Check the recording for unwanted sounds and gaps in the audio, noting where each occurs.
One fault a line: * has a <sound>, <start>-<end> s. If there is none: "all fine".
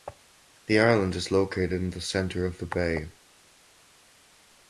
all fine